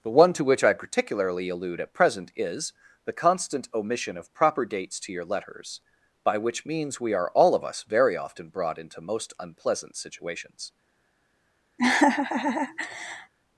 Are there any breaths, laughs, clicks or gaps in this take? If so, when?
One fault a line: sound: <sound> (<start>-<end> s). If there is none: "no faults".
sound: laugh (11.8-13.3 s)